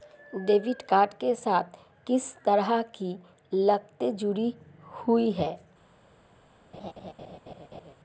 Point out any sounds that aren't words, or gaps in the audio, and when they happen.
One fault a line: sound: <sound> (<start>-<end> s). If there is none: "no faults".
sound: laugh (6.7-7.9 s)